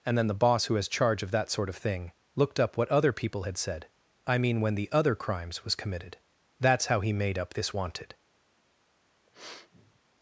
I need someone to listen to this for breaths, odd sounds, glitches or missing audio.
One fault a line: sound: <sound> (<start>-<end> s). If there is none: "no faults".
sound: sniff (9.3-10.0 s)